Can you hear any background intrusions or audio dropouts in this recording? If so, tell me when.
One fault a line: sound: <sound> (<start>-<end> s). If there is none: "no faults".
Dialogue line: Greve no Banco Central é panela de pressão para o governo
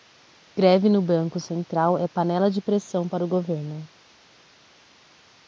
no faults